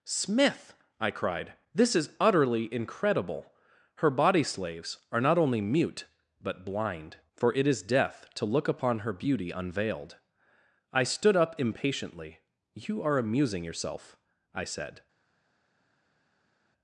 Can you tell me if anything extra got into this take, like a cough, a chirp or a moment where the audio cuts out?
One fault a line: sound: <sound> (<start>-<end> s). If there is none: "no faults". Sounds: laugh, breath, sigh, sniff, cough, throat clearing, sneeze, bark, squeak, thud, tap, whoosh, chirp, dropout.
no faults